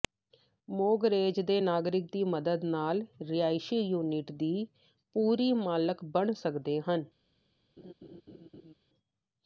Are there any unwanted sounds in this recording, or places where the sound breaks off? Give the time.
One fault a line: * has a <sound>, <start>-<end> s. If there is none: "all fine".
* has a laugh, 7.8-8.7 s